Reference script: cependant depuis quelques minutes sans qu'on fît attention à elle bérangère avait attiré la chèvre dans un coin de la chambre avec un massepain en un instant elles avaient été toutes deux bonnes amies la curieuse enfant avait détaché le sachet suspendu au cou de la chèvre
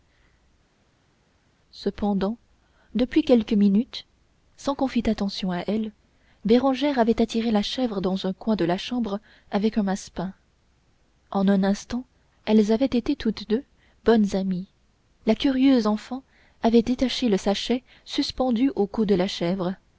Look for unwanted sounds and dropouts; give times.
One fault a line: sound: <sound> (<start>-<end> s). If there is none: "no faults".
no faults